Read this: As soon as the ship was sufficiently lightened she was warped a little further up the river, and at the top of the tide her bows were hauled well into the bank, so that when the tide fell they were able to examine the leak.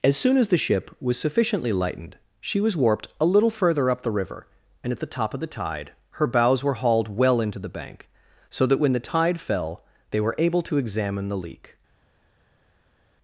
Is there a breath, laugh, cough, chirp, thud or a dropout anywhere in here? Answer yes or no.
no